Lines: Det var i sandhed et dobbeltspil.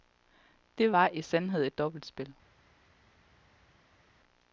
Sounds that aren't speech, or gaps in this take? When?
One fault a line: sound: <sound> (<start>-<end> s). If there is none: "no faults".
no faults